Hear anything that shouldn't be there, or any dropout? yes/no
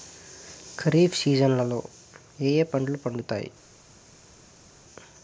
no